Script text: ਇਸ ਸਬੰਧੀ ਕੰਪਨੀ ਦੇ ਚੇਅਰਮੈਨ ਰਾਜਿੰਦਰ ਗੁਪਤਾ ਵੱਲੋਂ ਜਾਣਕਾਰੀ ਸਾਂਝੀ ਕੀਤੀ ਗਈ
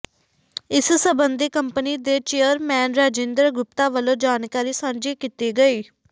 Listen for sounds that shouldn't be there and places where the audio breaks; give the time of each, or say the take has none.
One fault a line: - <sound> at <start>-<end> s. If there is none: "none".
none